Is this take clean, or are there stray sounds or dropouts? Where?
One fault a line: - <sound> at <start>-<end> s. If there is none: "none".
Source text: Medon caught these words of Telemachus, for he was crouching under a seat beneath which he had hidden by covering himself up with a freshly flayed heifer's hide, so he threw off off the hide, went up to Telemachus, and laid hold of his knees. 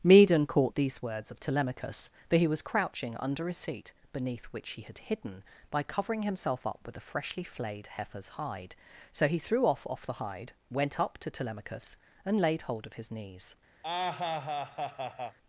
- laugh at 13.8-15.4 s